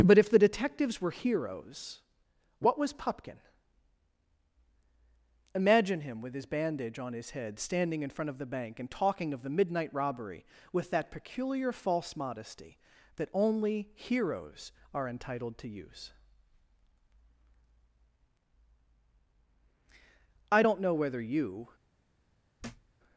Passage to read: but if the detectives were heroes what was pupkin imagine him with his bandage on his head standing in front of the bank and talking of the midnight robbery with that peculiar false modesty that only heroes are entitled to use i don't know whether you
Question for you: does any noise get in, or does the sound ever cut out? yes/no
yes